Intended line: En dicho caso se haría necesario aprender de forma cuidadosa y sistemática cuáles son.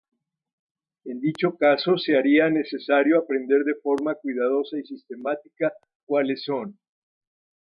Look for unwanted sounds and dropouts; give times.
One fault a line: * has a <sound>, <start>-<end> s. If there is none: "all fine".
all fine